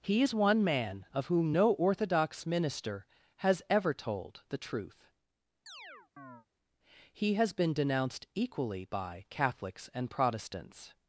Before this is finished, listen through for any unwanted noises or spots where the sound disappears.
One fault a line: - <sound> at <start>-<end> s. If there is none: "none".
- chirp at 5.7-6.5 s